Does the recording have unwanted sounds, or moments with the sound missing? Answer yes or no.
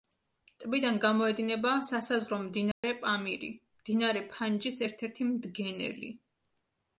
yes